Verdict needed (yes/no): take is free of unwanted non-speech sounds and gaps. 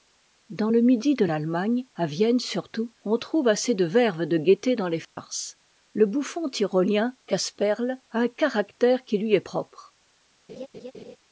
no